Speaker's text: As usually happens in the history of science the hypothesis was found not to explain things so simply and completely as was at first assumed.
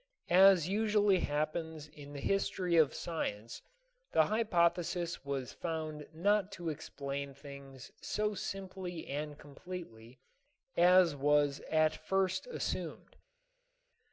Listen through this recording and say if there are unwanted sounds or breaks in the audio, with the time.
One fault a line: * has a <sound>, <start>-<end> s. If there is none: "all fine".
all fine